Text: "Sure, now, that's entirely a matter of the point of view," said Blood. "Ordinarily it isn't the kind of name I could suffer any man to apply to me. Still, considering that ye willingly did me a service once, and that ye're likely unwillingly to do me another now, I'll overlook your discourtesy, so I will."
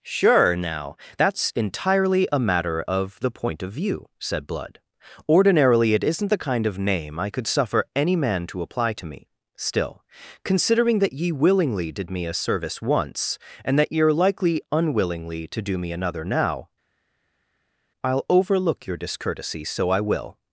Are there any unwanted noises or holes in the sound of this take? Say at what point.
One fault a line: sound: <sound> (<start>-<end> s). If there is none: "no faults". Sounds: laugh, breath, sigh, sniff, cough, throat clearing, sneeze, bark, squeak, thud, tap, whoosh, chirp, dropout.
no faults